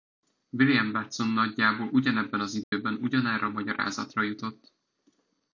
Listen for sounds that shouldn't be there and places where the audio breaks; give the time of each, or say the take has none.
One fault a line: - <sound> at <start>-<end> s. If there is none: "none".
- dropout at 2.6-2.7 s